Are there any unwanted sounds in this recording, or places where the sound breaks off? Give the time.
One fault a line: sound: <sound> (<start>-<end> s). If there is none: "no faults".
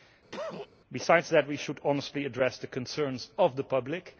sound: cough (0.3-0.7 s)